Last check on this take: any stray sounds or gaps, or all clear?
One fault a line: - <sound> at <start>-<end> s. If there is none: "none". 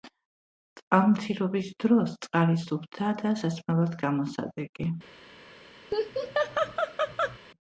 - laugh at 5.9-7.4 s